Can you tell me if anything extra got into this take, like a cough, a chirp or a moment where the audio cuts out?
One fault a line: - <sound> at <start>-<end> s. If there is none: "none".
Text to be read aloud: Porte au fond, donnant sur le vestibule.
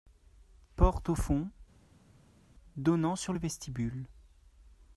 none